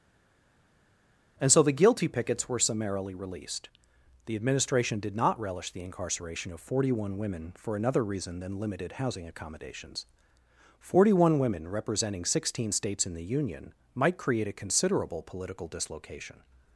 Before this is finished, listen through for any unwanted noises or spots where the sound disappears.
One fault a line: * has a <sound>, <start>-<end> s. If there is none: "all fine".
all fine